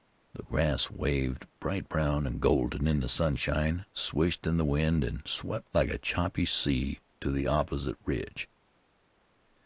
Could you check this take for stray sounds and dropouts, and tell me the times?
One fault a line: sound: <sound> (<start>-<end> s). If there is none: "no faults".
no faults